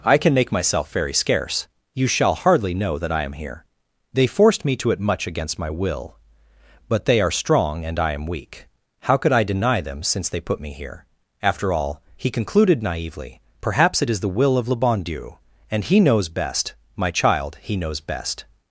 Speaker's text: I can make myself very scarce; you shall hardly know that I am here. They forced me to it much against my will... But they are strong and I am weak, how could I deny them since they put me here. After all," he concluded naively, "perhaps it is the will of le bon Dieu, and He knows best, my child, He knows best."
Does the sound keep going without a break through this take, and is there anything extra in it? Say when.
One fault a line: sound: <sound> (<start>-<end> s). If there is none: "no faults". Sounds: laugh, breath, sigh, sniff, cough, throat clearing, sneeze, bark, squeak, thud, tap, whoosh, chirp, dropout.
no faults